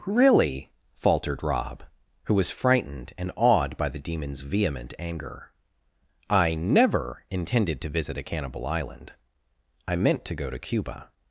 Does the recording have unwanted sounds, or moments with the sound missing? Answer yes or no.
no